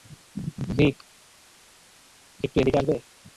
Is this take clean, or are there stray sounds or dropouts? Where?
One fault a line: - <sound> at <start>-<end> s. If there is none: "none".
none